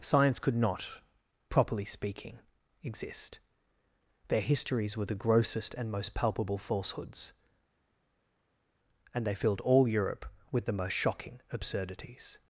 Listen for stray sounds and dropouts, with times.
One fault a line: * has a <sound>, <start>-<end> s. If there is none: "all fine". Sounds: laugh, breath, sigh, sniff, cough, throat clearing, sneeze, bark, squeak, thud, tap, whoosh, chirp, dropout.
all fine